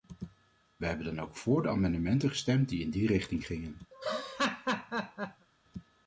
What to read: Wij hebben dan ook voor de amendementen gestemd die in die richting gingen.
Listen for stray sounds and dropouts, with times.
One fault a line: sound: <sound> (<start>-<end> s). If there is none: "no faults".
sound: laugh (3.9-5.5 s)